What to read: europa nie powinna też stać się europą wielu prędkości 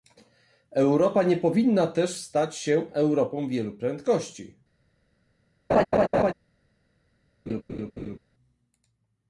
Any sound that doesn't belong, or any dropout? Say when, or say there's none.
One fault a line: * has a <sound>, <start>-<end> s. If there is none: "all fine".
* has a laugh, 5.7-6.3 s
* has a laugh, 7.5-8.2 s